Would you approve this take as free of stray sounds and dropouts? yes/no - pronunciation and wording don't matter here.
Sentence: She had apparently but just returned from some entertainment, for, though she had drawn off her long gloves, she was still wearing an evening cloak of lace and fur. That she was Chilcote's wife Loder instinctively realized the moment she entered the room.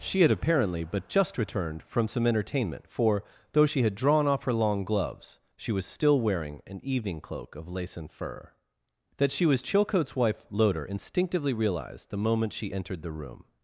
yes